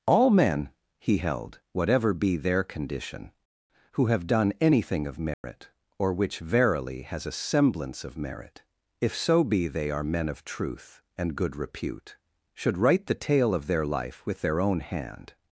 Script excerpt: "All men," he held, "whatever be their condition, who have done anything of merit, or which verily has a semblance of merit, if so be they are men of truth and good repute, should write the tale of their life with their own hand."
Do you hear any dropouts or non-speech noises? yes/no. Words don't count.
yes